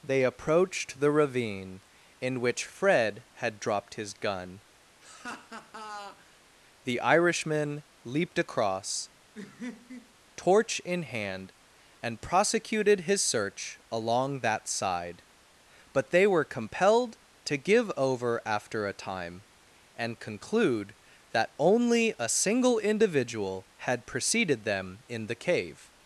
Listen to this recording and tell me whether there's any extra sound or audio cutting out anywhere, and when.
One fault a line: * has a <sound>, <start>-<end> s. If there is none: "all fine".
* has a laugh, 5.0-6.4 s
* has a laugh, 9.3-10.1 s